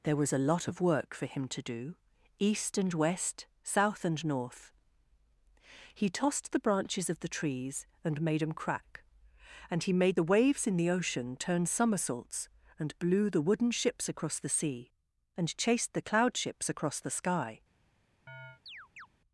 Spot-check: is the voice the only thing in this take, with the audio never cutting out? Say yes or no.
no